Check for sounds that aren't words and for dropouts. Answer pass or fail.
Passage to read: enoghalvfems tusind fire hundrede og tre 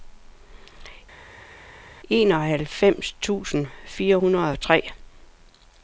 pass